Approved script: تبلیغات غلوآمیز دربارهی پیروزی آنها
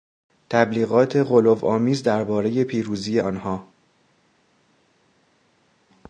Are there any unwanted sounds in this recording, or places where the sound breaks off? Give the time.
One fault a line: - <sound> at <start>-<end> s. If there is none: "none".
none